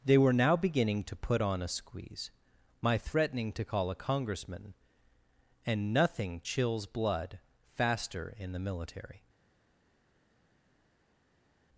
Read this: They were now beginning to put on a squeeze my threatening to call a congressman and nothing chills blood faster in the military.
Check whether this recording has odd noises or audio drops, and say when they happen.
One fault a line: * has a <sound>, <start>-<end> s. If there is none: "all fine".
all fine